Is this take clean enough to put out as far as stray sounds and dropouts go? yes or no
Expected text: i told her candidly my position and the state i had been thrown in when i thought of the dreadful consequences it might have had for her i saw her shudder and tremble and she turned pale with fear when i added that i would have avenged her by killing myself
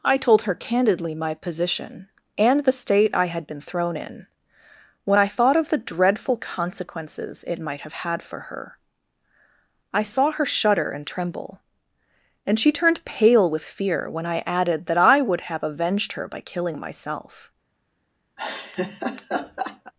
no